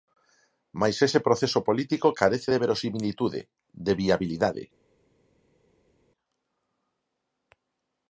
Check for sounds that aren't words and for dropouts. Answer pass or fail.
pass